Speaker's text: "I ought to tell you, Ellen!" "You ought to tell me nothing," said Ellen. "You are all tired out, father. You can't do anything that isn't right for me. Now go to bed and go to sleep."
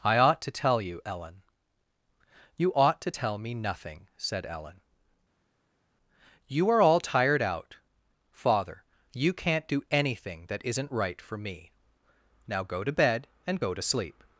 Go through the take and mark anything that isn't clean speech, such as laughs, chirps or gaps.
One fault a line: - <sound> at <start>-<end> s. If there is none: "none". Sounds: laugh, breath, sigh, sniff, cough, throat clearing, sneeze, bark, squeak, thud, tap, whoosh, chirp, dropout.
none